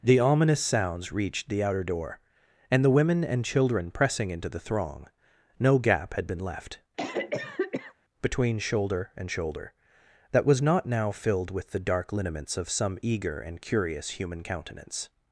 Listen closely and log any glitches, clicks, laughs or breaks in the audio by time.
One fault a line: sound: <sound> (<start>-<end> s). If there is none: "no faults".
sound: cough (7.0-7.9 s)